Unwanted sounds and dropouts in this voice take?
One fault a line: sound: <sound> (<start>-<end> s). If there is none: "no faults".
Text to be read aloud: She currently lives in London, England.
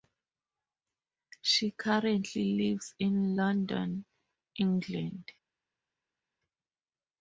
no faults